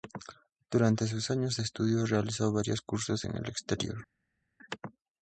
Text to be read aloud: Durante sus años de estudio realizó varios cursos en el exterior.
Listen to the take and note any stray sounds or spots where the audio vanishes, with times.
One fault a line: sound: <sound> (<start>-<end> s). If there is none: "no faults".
no faults